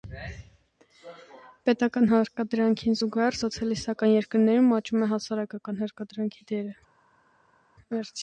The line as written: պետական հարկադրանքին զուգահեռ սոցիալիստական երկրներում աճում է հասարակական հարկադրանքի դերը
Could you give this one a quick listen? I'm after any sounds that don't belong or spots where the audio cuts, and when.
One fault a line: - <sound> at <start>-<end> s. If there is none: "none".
none